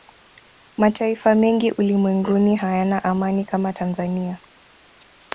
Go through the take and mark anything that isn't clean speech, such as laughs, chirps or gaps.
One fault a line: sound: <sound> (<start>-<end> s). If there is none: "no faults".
no faults